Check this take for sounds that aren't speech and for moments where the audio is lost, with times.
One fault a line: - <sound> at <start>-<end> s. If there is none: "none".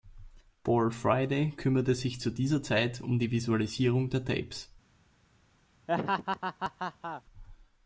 - laugh at 5.9-7.2 s